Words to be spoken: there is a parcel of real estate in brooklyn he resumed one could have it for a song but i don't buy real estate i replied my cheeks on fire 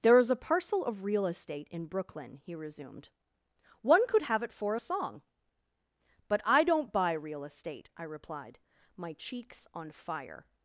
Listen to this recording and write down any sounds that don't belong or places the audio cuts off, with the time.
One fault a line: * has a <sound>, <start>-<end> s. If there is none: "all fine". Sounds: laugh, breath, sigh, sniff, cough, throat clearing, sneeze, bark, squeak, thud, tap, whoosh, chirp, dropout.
all fine